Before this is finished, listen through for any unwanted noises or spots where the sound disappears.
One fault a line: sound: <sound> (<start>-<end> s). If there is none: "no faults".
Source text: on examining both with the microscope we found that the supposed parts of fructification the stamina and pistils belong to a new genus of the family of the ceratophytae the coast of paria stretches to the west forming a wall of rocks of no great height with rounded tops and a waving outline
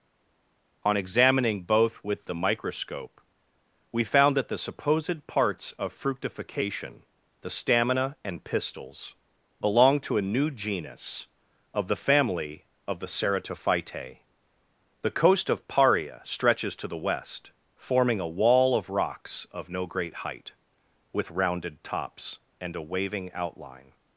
no faults